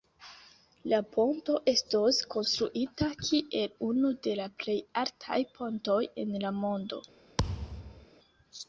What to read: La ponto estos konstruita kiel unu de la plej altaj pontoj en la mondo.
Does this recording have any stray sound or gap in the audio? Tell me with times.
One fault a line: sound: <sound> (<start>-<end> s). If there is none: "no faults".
sound: thud (7.4-8.1 s)